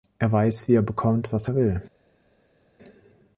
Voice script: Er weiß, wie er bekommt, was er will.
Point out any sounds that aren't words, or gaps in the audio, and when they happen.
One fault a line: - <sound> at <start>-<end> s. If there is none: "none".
none